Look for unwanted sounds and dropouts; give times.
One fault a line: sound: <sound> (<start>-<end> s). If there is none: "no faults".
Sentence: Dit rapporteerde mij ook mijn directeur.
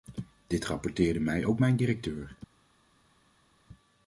no faults